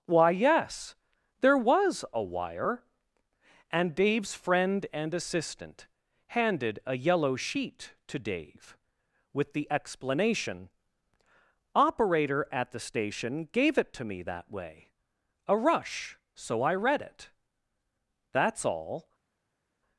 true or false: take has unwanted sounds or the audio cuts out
false